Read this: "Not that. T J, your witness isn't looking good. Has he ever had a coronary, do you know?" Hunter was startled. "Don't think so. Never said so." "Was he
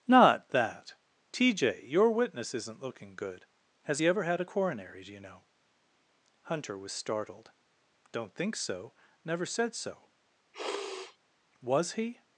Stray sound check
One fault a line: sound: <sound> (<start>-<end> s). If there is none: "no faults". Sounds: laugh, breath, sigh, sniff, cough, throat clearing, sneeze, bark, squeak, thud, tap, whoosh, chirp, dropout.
sound: sniff (10.5-11.2 s)